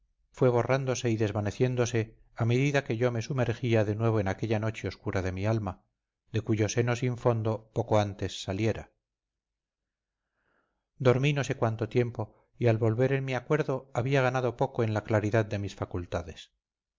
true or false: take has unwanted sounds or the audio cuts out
false